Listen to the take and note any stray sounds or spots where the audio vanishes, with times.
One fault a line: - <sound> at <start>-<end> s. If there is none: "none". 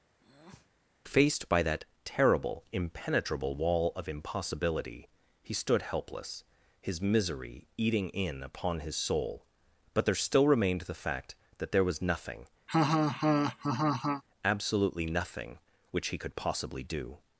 - breath at 0.2-0.7 s
- laugh at 12.7-14.2 s